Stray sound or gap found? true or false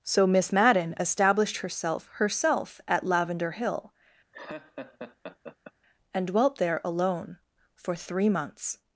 true